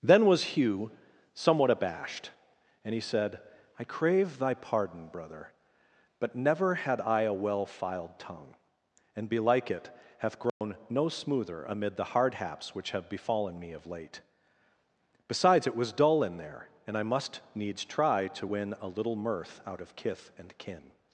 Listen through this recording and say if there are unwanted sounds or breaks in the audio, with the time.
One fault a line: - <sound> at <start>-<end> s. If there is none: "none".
- dropout at 10.5-10.6 s